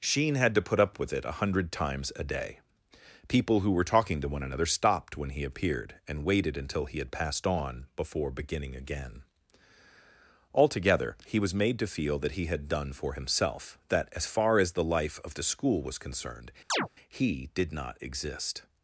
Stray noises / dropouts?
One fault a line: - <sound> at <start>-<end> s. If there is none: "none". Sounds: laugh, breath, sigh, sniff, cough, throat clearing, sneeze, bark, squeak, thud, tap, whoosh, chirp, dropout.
- chirp at 16.7-16.9 s